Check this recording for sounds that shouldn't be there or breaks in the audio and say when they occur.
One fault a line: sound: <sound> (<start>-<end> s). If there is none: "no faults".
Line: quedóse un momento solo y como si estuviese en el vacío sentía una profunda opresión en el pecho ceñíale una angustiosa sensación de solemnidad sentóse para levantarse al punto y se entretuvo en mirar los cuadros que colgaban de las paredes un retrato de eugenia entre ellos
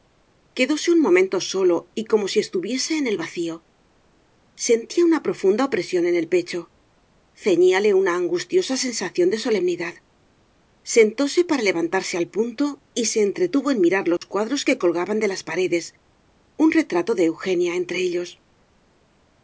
sound: dropout (14.2-14.2 s)